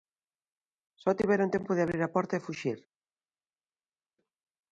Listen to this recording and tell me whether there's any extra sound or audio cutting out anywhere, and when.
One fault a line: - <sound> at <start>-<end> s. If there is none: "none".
none